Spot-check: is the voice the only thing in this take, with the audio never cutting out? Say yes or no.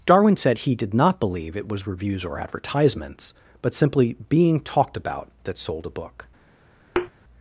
no